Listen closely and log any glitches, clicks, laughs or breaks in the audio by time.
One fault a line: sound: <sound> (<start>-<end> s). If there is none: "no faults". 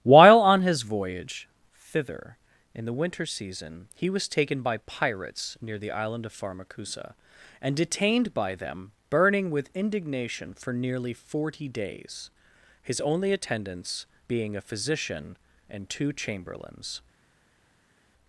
no faults